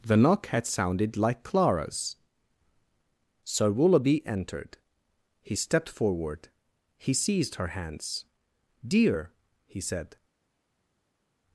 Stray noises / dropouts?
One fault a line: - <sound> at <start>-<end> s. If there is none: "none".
none